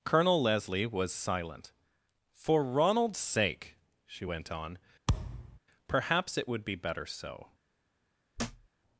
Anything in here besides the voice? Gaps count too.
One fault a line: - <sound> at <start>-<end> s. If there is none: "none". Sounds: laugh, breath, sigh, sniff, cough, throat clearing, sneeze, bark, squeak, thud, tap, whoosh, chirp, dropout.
- thud at 5.1-5.6 s
- thud at 8.4-8.7 s